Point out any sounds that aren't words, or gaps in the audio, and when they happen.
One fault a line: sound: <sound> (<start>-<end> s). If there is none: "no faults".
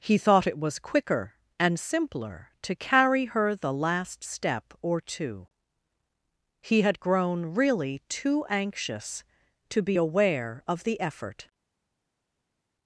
no faults